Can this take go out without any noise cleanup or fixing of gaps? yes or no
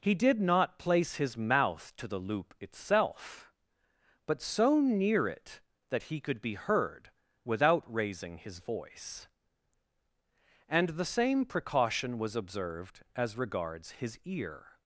yes